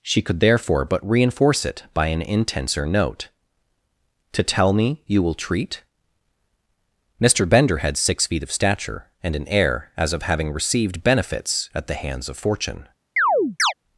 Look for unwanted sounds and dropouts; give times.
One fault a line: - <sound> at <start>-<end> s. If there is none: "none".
- chirp at 13.2-13.7 s